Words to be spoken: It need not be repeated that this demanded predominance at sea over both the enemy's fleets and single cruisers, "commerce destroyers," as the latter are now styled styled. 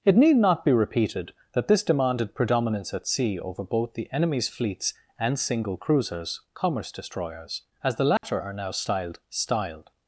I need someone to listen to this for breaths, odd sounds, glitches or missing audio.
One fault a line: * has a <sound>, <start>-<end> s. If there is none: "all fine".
* has a dropout, 8.2-8.2 s